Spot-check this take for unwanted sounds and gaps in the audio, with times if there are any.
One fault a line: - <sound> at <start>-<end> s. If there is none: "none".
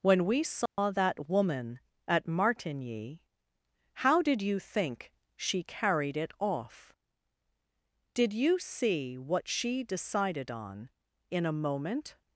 - dropout at 0.7-0.8 s